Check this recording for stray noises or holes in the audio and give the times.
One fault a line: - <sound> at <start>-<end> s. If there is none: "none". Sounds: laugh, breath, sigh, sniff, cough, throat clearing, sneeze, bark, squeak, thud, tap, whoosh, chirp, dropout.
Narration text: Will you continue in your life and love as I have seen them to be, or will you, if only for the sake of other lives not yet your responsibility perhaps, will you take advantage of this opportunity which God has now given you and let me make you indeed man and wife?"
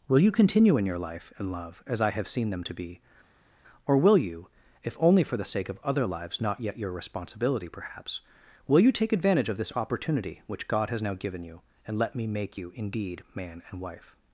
none